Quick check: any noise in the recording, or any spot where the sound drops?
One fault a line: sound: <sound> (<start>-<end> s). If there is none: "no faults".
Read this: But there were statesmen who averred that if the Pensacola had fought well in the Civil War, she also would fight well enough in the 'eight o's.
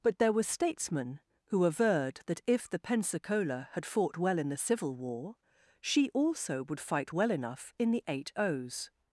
no faults